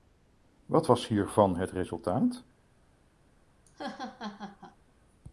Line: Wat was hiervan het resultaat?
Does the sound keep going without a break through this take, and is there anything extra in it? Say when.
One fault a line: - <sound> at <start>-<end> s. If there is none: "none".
- laugh at 3.6-4.8 s